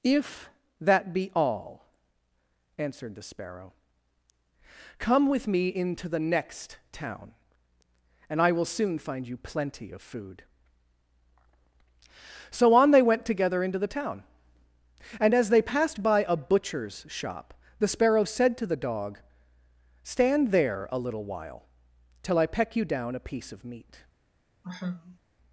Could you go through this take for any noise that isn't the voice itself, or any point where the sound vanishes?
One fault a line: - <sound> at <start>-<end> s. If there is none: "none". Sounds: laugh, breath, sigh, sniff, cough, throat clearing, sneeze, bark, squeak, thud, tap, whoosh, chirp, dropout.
- sigh at 24.6-25.2 s